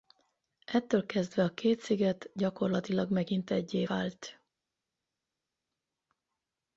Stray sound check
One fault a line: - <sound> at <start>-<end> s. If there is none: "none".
none